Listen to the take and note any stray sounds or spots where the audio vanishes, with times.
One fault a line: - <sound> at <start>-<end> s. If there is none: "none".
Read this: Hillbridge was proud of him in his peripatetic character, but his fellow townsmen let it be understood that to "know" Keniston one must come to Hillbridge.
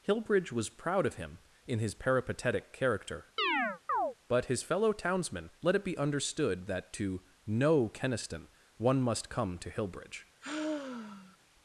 - chirp at 3.4-4.2 s
- sigh at 10.4-11.4 s